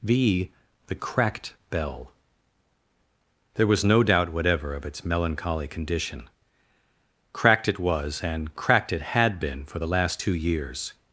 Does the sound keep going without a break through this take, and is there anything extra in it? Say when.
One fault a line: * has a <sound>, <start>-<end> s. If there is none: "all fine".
all fine